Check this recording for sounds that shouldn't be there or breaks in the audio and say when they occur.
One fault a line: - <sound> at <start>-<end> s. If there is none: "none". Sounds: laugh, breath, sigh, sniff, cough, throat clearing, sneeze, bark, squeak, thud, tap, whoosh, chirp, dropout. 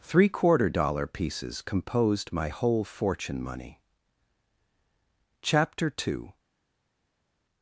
none